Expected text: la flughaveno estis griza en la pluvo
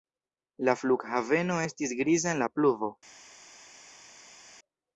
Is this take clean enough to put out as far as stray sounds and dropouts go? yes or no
yes